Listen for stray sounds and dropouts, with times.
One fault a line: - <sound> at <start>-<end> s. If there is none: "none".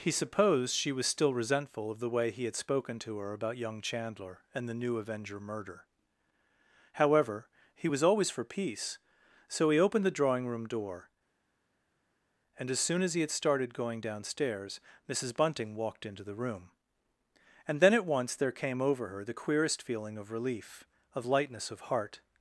none